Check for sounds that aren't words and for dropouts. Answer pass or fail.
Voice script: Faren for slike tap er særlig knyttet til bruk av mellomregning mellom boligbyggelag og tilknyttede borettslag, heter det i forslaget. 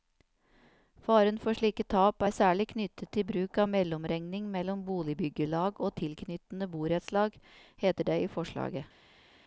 pass